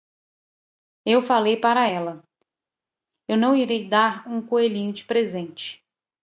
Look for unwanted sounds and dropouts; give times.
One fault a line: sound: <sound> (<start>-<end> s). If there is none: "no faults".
no faults